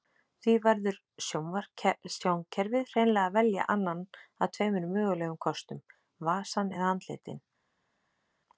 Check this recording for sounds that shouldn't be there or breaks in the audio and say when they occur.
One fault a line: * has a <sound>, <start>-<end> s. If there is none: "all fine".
all fine